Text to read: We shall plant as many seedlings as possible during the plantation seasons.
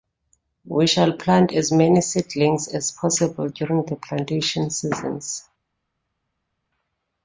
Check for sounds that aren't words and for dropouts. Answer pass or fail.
pass